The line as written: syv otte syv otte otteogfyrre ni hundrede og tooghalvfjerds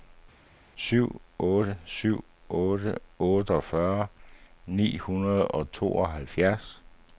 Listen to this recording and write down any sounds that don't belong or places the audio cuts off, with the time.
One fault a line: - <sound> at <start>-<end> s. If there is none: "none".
none